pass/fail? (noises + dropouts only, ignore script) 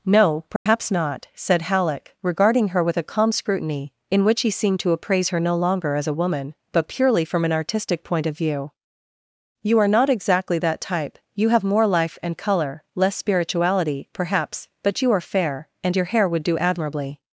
fail